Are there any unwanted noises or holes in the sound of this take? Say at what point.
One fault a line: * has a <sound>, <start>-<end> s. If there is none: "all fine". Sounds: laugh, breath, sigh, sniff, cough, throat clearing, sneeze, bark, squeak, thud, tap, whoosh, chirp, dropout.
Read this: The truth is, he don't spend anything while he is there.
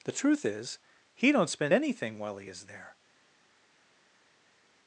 all fine